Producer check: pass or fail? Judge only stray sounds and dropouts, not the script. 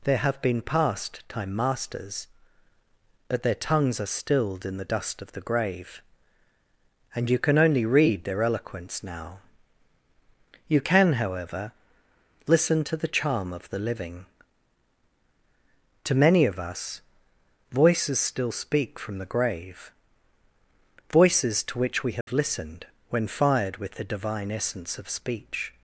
fail